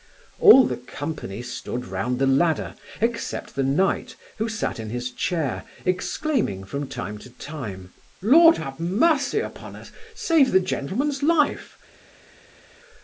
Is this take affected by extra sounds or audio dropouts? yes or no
no